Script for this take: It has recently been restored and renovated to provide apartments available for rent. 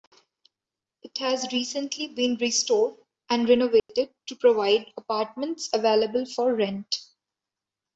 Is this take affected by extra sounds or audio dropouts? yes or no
yes